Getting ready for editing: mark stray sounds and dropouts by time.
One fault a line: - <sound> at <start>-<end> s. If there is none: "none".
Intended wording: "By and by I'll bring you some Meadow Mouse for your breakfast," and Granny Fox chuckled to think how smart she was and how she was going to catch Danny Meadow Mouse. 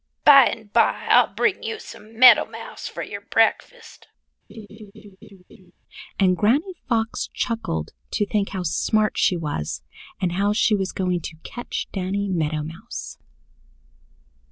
- laugh at 4.5-5.7 s